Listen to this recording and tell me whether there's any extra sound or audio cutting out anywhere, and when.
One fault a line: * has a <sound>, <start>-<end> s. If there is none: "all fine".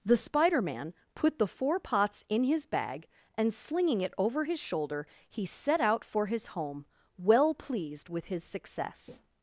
all fine